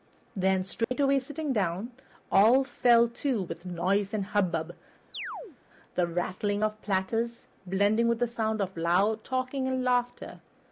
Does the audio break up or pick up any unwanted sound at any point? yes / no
yes